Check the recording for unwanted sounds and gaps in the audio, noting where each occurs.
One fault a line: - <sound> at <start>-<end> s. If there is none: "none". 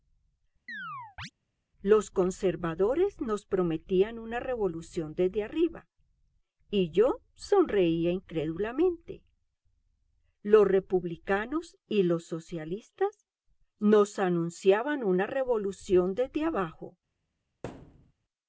- chirp at 0.7-1.3 s
- thud at 17.6-18.1 s